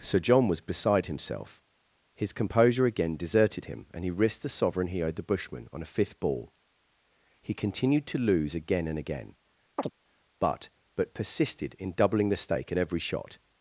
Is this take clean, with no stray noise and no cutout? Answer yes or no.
no